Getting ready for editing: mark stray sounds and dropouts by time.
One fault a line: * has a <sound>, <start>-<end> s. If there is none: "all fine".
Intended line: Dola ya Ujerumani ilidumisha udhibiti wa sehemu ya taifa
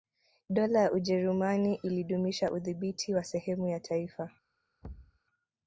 * has a thud, 4.8-5.2 s